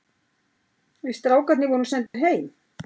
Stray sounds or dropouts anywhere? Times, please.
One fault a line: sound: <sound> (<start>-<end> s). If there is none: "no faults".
sound: dropout (2.1-2.1 s)